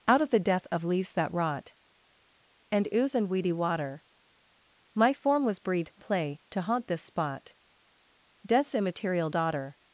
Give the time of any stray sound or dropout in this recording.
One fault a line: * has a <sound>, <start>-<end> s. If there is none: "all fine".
all fine